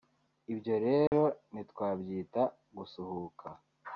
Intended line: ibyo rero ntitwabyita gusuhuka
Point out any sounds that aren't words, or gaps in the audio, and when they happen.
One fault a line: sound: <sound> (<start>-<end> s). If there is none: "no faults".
sound: dropout (1.1-1.1 s)